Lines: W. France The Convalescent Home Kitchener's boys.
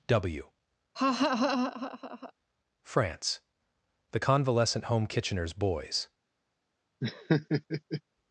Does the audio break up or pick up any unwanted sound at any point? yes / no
yes